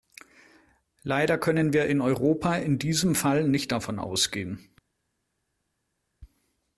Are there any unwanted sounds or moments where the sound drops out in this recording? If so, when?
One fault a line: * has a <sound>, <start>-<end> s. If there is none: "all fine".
all fine